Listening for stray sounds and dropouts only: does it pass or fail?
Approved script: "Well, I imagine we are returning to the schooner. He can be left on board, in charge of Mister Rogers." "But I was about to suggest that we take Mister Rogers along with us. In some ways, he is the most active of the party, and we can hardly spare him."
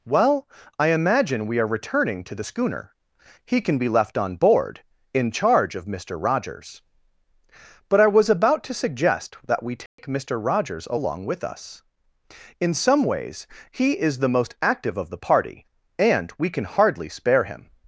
fail